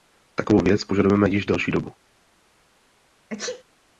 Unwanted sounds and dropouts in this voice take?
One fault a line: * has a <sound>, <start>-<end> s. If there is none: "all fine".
* has a sneeze, 3.3-3.6 s